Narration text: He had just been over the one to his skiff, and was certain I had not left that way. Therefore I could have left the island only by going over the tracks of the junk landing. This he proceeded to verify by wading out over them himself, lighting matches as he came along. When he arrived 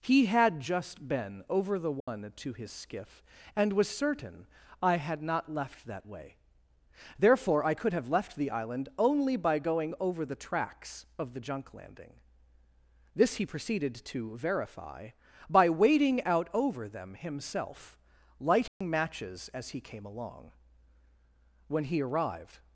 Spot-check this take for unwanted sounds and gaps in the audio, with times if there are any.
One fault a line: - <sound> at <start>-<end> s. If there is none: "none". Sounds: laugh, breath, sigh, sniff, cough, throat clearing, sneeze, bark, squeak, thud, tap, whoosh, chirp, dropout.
- dropout at 2.0-2.1 s
- dropout at 18.7-18.8 s